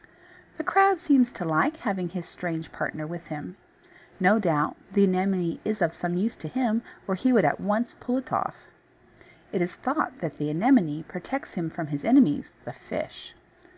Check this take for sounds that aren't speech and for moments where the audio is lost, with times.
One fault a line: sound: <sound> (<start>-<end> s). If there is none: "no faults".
no faults